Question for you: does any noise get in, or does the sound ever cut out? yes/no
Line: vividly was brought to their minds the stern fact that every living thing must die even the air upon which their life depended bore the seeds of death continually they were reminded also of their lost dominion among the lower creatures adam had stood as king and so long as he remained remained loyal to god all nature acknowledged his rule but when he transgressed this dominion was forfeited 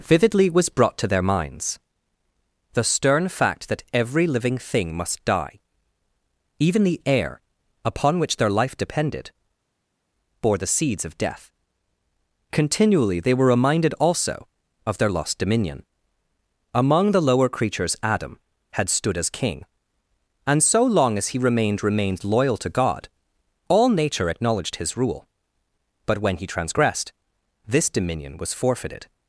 no